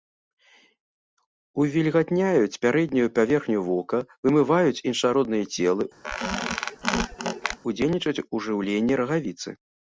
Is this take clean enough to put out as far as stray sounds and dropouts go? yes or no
no